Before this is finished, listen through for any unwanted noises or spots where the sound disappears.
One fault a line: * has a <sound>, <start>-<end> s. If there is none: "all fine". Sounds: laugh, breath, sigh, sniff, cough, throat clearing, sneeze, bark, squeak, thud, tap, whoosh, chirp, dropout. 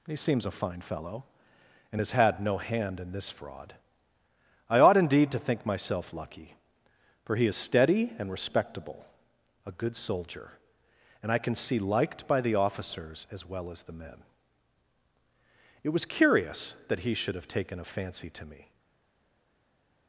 all fine